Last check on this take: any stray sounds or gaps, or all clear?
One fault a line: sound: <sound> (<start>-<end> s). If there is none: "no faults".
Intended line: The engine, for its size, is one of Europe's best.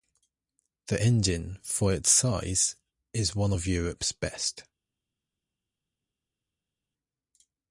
no faults